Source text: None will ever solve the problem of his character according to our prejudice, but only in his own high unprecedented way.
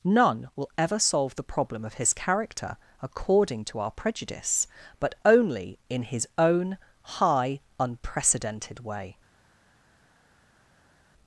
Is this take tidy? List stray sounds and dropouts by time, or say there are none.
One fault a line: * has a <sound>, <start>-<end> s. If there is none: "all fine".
all fine